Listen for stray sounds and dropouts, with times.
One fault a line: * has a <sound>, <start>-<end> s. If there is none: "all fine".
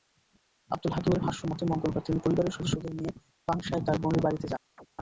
* has a chirp, 4.8-4.9 s